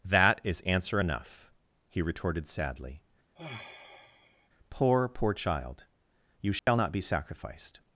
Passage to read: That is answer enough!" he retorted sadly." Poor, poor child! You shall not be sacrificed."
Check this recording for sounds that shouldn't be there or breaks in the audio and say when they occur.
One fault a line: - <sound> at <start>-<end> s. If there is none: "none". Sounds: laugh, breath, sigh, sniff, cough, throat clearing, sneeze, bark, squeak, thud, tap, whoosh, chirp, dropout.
- sigh at 3.4-4.5 s
- dropout at 6.6-6.7 s